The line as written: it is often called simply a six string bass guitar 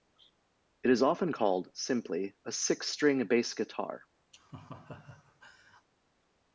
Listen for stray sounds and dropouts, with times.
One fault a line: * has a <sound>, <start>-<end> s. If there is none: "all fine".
* has a laugh, 4.3-5.9 s